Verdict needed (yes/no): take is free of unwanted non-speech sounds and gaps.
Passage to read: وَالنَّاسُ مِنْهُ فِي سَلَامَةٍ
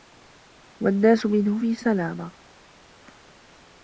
yes